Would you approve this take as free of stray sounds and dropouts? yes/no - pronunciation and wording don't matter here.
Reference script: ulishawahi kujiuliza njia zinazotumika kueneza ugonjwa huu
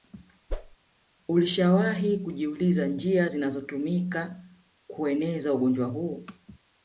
no